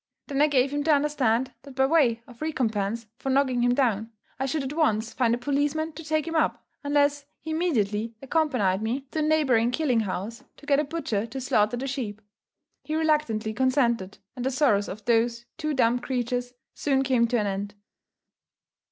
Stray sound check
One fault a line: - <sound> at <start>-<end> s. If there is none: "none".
none